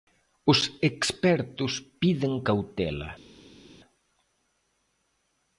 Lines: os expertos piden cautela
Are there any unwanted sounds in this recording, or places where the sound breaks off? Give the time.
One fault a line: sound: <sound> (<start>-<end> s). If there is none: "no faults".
no faults